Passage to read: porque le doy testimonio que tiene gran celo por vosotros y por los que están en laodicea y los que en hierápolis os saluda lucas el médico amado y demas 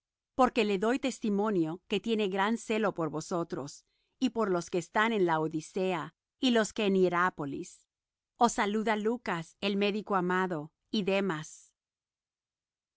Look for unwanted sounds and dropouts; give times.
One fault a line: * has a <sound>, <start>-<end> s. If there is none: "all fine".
all fine